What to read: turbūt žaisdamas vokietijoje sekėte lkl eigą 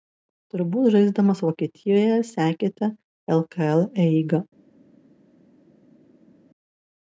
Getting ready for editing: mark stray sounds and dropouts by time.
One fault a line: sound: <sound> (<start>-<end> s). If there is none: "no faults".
no faults